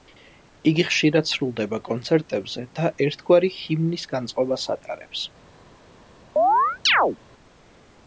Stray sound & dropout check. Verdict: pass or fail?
fail